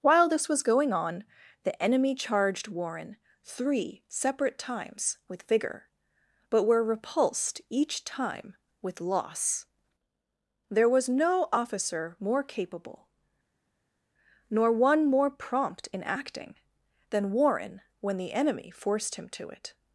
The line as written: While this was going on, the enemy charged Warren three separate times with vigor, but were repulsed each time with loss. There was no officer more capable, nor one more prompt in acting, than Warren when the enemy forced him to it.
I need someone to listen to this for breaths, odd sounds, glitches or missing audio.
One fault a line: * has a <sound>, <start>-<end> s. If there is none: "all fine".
all fine